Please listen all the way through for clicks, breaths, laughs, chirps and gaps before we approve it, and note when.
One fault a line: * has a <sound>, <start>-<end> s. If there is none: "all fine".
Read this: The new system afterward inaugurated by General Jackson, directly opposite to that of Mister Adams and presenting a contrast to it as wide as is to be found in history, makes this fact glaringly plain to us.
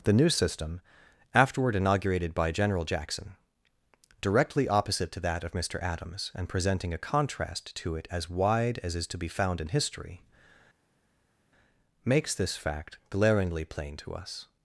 all fine